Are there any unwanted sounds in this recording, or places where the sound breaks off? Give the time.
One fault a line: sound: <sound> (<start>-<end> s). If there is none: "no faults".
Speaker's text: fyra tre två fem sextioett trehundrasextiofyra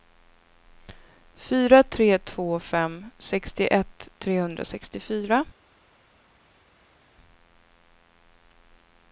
no faults